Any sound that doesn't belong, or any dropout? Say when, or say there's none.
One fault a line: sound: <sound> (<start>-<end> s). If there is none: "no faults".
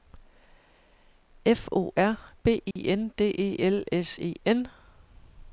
sound: dropout (2.7-2.8 s)